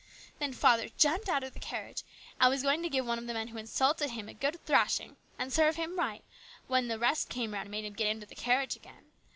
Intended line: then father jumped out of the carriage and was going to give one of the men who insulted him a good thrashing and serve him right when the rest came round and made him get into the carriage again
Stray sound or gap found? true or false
false